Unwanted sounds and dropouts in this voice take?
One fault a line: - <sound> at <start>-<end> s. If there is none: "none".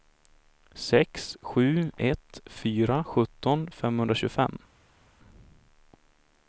none